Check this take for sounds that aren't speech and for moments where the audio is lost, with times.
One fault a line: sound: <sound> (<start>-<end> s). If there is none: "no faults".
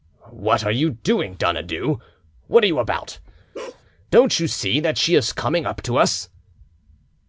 sound: bark (3.5-3.8 s)